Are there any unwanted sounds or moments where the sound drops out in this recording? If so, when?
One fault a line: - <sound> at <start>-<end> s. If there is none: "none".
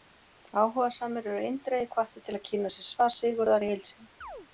- chirp at 4.2-4.5 s